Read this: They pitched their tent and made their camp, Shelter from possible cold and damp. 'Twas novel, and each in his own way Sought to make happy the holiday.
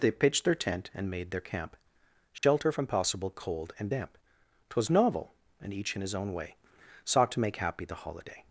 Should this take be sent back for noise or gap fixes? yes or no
yes